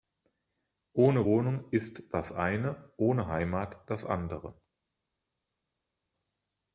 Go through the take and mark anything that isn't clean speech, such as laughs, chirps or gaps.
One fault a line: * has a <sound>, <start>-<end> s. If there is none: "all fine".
all fine